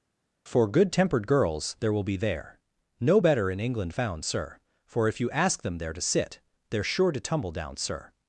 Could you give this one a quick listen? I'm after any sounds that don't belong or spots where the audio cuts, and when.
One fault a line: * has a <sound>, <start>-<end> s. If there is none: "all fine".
all fine